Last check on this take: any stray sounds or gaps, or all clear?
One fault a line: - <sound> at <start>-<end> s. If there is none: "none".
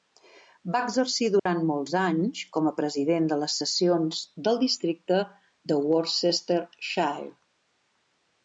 - dropout at 1.4-1.5 s